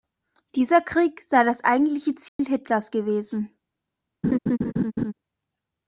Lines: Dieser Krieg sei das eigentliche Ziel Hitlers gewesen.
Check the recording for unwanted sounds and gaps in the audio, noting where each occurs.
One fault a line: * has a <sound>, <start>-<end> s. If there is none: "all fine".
* has a dropout, 2.3-2.4 s
* has a laugh, 4.2-5.1 s